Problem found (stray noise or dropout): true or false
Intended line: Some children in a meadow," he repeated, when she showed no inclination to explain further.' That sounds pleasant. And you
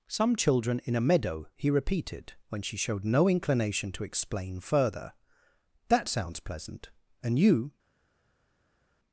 false